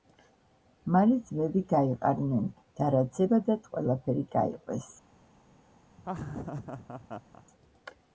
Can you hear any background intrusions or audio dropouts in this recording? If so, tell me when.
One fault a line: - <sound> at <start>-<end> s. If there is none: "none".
- laugh at 6.0-7.4 s